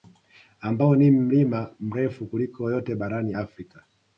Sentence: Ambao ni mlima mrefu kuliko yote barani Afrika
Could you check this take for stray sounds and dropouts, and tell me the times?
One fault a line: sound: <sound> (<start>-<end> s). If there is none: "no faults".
no faults